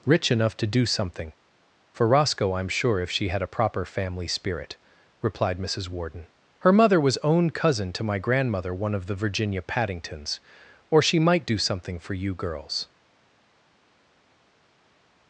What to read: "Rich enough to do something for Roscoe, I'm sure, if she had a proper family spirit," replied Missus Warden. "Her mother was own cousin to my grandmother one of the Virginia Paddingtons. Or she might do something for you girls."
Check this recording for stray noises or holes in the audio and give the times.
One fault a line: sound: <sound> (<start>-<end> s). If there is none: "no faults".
no faults